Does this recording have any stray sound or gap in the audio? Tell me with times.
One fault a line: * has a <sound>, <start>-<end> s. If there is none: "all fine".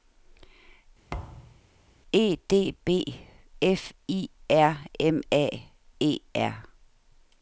* has a thud, 1.1-1.6 s